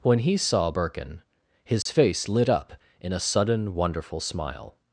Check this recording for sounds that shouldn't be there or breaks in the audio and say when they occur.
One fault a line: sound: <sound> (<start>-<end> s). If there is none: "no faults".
sound: dropout (1.8-1.9 s)